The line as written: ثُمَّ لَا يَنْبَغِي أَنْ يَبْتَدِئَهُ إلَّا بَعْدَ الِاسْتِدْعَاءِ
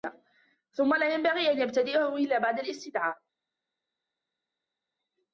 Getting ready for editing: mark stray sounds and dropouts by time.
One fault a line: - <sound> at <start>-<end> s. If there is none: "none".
none